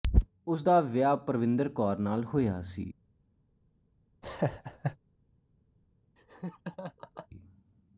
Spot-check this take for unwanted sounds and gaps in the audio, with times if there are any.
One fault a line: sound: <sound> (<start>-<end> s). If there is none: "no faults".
sound: laugh (4.2-5.0 s)
sound: laugh (6.2-7.3 s)